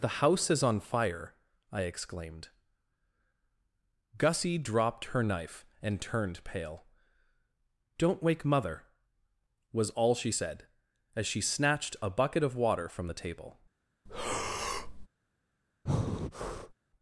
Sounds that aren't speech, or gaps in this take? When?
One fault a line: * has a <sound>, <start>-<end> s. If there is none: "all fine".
* has a breath, 14.1-15.1 s
* has a breath, 15.9-16.7 s